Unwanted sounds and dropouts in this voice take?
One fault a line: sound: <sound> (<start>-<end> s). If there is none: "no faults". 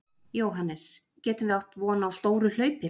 no faults